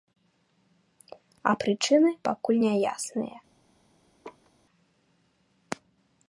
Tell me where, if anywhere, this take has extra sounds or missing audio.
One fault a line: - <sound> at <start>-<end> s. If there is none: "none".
- laugh at 4.2-4.5 s